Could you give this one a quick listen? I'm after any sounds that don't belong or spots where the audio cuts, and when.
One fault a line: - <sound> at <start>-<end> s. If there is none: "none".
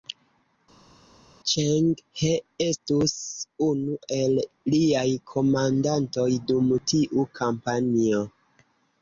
none